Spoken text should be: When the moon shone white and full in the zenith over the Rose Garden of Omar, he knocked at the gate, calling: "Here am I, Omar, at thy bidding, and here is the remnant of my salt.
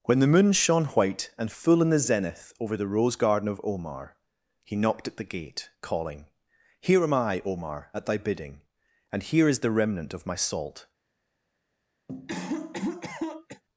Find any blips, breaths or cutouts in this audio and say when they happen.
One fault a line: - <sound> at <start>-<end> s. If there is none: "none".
- cough at 12.1-13.6 s